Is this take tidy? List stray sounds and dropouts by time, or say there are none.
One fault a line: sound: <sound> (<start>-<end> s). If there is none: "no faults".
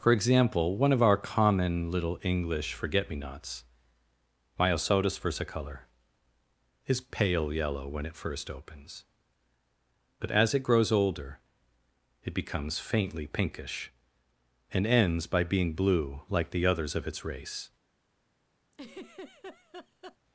sound: laugh (18.7-20.2 s)